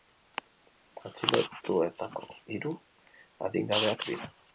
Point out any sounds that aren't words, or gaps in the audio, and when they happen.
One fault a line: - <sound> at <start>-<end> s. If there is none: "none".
none